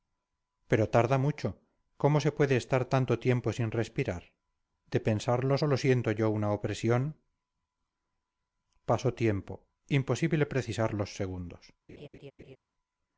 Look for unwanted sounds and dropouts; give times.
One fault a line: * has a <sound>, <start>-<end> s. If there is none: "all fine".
* has a laugh, 11.9-12.6 s